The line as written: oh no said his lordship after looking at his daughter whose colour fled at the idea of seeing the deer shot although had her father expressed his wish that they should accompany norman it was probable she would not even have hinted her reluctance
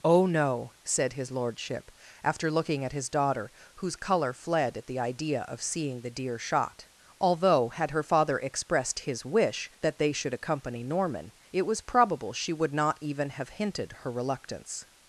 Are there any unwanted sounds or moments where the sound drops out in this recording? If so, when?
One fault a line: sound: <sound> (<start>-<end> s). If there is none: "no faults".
no faults